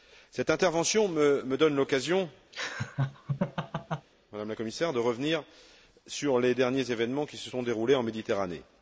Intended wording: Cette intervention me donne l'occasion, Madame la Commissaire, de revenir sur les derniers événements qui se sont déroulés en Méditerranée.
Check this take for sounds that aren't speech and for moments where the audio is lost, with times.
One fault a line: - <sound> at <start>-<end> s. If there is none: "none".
- laugh at 2.5-4.1 s